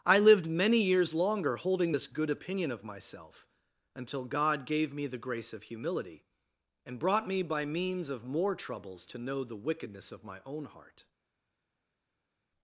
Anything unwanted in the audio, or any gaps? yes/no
no